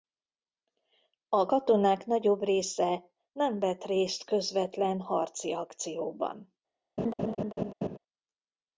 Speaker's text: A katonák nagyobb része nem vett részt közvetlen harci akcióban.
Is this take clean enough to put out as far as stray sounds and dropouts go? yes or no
no